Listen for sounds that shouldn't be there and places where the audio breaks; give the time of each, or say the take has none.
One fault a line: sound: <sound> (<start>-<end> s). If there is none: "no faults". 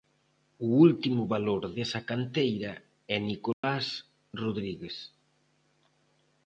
sound: dropout (3.5-3.6 s)